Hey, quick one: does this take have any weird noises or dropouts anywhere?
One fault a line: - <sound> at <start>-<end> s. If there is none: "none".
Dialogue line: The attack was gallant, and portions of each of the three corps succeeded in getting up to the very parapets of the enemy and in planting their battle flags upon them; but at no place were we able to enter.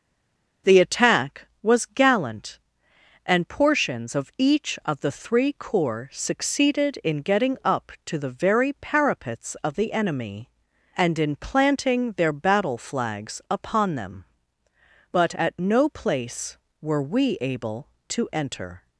none